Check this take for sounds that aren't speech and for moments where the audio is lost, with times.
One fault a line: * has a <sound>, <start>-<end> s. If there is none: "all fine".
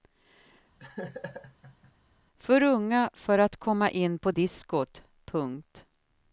* has a laugh, 0.8-1.9 s